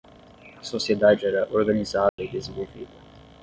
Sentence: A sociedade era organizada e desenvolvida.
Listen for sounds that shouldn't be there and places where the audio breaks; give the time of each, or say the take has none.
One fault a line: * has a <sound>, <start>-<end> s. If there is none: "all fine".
* has a dropout, 2.1-2.2 s